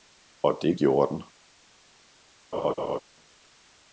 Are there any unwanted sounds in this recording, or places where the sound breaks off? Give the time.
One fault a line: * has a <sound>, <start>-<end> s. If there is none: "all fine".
* has a laugh, 2.5-3.0 s